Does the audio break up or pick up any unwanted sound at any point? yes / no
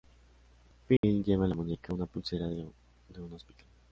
yes